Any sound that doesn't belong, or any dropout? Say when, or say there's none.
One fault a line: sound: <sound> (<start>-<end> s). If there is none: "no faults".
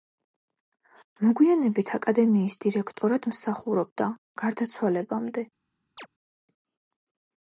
sound: chirp (6.0-6.1 s)